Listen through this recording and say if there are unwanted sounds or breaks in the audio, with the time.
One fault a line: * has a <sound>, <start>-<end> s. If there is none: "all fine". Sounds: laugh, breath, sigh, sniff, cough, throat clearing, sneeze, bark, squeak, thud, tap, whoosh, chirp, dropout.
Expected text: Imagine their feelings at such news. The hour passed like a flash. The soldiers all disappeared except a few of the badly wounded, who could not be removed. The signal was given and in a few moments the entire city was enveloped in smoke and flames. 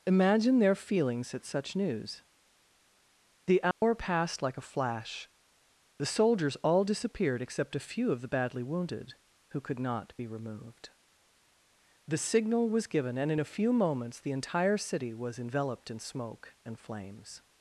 * has a dropout, 3.7-3.8 s